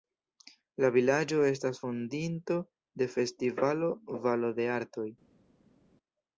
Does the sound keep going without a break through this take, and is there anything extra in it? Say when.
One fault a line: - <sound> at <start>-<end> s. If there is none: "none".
none